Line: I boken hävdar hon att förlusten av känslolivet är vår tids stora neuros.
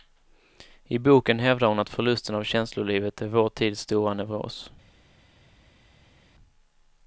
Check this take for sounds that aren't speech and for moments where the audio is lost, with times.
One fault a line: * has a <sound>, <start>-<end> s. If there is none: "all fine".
all fine